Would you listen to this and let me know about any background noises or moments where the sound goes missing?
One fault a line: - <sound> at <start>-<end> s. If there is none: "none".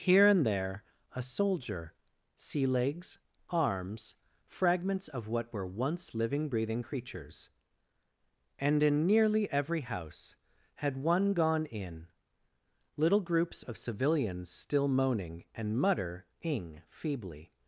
none